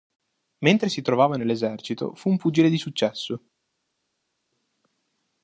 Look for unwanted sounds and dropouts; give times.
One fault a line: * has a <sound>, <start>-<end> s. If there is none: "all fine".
all fine